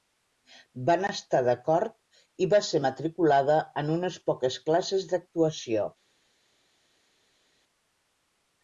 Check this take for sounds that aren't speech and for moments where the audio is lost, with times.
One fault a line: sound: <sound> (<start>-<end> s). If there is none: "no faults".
no faults